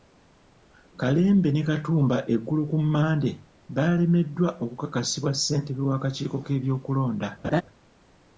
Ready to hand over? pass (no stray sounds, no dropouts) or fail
fail